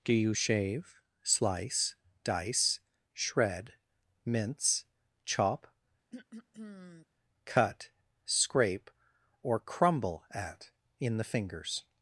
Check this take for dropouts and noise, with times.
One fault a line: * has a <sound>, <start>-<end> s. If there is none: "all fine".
* has a throat clearing, 6.1-7.1 s